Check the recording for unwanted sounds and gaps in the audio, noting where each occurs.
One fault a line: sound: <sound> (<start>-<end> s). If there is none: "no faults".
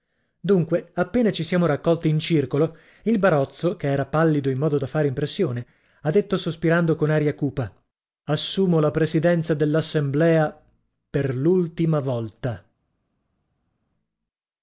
no faults